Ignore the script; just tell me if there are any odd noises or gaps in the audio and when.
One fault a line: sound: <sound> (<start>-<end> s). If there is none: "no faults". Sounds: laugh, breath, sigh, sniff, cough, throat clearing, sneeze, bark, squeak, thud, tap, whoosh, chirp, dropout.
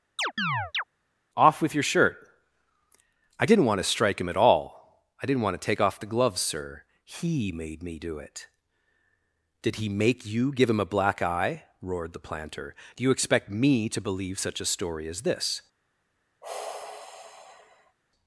sound: chirp (0.2-0.8 s)
sound: sigh (16.4-18.0 s)